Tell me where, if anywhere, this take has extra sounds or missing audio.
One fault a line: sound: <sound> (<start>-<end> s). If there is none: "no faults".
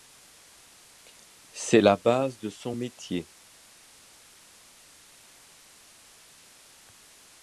no faults